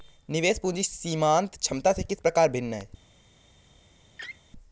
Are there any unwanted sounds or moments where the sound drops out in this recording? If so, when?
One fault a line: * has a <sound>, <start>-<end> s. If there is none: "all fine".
* has a laugh, 4.2-4.4 s